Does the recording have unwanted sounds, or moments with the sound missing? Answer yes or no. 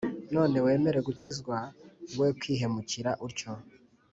yes